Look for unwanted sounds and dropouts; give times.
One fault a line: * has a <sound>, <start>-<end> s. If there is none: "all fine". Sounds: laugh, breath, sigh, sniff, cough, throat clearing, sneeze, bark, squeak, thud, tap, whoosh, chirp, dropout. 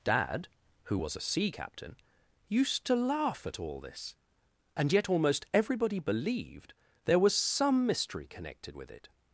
all fine